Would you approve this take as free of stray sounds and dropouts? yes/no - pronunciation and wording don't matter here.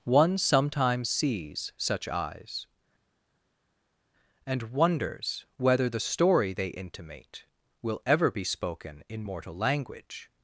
yes